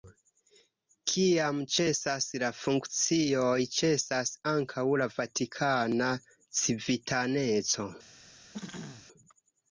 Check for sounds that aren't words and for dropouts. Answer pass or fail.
fail